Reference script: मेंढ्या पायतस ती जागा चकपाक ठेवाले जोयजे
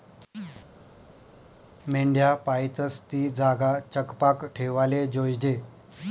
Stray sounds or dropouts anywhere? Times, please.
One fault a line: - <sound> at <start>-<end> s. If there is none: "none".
none